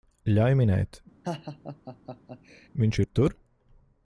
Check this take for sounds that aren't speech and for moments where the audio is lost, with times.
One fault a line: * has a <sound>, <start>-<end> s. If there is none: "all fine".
* has a laugh, 1.2-2.7 s